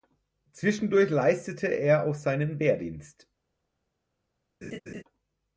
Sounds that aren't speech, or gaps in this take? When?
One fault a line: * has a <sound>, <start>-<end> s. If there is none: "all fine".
* has a laugh, 4.6-5.0 s